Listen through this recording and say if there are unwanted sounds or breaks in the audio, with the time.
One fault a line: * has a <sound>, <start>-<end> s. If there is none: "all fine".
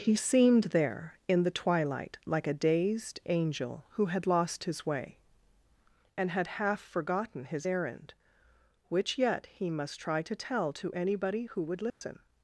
* has a dropout, 11.9-12.0 s